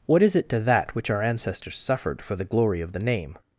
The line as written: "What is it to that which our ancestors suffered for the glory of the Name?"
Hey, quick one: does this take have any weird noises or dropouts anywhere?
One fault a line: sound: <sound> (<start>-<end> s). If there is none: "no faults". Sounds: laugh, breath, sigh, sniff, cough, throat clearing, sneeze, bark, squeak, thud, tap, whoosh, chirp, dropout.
no faults